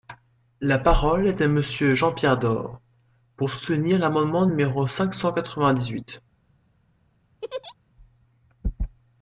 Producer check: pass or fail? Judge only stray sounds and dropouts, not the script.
fail